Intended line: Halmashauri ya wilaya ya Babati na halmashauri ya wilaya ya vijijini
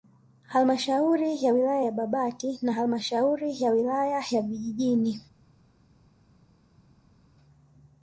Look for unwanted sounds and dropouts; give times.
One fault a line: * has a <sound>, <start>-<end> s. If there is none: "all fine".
all fine